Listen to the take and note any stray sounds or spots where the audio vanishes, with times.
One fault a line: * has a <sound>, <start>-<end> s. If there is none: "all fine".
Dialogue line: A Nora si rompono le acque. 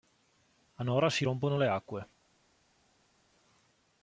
all fine